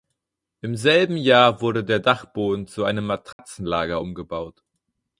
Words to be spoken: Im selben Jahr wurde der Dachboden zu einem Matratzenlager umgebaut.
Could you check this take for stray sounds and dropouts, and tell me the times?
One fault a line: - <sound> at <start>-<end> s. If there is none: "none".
- dropout at 3.3-3.4 s